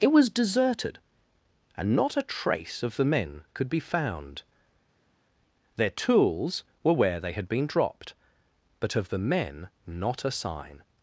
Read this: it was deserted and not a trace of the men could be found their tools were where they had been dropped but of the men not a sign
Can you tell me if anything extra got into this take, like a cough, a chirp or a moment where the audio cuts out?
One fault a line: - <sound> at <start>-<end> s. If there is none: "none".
none